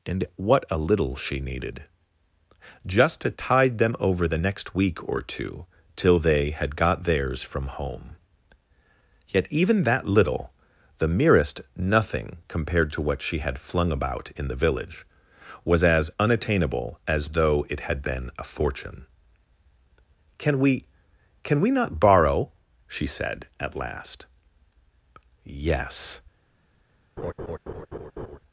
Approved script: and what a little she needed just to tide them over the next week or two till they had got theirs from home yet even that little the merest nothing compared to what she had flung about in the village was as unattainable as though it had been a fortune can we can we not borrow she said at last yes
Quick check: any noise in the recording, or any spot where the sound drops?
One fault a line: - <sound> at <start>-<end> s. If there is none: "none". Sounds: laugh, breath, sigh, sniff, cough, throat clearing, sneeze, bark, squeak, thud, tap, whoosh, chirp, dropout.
- laugh at 27.2-28.4 s